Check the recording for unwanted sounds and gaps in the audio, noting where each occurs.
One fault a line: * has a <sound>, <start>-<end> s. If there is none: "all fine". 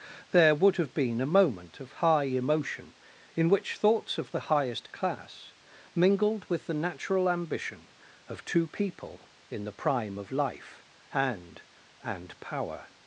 all fine